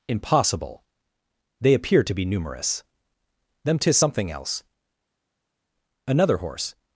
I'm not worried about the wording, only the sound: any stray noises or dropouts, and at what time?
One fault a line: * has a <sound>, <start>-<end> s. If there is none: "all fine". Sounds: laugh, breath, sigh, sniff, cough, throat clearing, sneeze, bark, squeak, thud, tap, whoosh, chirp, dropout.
all fine